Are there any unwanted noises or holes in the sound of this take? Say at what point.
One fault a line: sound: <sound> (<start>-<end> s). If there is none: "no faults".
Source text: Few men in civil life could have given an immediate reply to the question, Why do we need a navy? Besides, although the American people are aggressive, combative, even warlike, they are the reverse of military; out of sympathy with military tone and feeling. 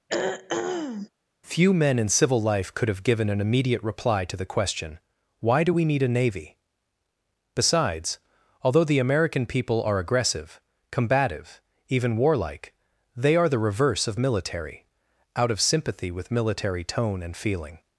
sound: throat clearing (0.1-1.1 s)